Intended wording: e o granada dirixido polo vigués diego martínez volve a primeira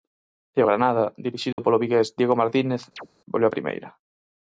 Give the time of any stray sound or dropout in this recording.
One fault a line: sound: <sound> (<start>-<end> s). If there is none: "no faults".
sound: dropout (1.5-1.6 s)
sound: chirp (3.0-3.1 s)